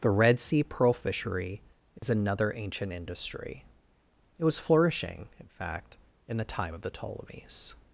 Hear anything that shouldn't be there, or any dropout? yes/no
yes